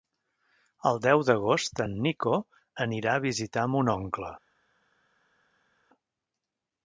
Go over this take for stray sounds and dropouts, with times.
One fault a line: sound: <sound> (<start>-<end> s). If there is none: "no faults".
no faults